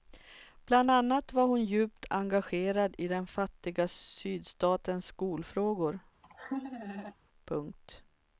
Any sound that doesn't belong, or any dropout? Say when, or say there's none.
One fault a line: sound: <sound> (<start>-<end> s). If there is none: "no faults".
sound: laugh (6.2-7.1 s)